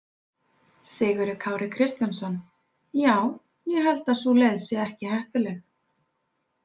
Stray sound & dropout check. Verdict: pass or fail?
pass